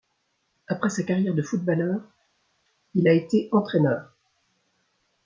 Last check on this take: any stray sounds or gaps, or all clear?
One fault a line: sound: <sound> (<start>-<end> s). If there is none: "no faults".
no faults